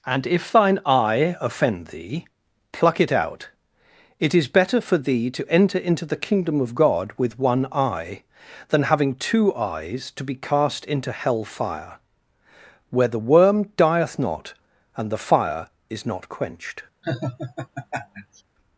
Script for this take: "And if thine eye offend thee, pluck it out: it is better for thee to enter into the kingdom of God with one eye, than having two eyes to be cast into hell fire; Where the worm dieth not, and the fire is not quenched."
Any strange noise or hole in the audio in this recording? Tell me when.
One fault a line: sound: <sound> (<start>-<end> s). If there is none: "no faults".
sound: laugh (17.0-18.4 s)